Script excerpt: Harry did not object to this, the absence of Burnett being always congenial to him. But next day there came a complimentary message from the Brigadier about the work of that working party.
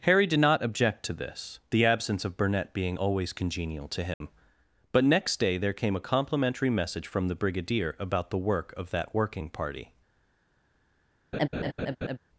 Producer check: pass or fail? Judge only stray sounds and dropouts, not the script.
fail